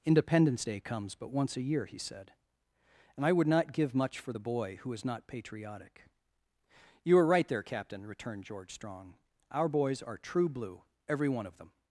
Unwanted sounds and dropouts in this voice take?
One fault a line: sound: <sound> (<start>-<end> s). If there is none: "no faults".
no faults